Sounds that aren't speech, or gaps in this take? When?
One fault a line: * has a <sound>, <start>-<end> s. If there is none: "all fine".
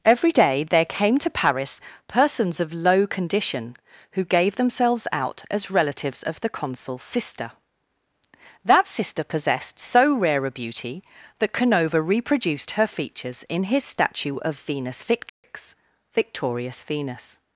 * has a dropout, 15.3-15.4 s